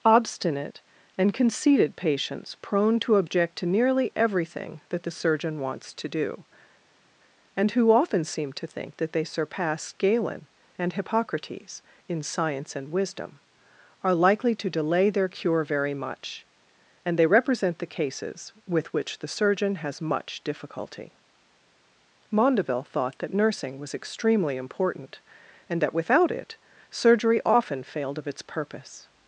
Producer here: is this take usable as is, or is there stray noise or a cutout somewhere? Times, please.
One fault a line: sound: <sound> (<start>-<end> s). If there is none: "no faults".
no faults